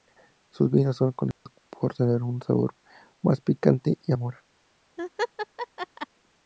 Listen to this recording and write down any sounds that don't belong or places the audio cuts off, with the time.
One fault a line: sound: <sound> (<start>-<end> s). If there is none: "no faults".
sound: dropout (1.3-1.5 s)
sound: laugh (5.0-6.1 s)